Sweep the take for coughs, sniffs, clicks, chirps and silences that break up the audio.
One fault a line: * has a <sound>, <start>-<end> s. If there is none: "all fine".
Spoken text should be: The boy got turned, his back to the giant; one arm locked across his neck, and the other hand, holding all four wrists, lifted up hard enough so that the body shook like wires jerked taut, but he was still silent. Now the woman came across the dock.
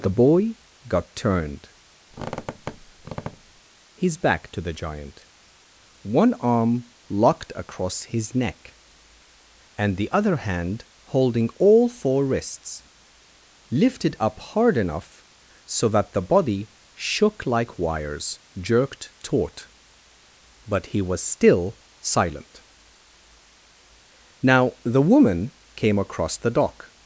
* has a squeak, 2.1-3.6 s